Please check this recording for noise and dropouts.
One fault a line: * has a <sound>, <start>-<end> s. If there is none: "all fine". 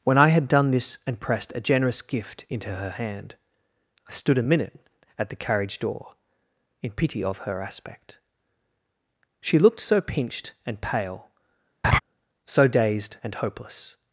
* has a laugh, 11.8-12.0 s